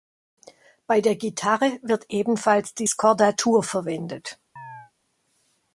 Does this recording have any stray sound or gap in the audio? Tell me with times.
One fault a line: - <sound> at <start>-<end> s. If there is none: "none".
- chirp at 4.6-4.9 s